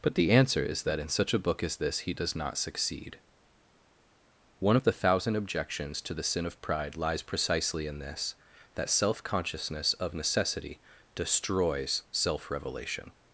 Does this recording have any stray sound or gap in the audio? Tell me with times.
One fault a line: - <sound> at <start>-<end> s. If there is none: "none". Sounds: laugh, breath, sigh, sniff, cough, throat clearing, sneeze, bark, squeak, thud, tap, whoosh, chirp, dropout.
none